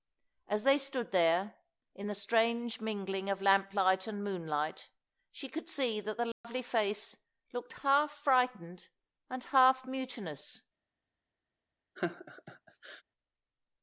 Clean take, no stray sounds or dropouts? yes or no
no